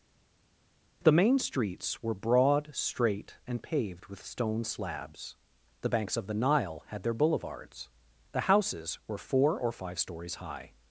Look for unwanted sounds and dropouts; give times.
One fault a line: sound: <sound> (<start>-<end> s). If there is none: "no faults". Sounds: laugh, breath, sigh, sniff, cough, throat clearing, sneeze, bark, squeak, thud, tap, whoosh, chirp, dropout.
no faults